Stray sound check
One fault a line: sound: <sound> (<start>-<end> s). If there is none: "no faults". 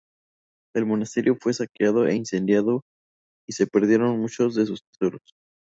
no faults